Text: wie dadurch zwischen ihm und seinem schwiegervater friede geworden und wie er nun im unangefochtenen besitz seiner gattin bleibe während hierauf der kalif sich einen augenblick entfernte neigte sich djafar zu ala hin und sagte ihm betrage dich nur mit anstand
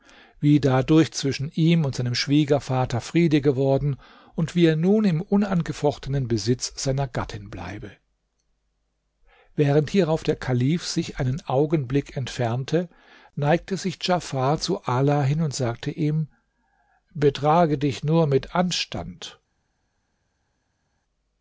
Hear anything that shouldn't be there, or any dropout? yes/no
no